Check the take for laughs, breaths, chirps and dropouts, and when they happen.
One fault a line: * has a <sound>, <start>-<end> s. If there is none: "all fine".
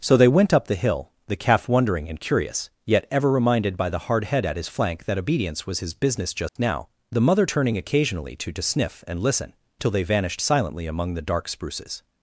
* has a dropout, 6.5-6.6 s